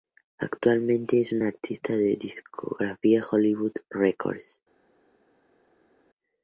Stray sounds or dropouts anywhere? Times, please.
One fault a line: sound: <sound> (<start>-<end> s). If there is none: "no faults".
no faults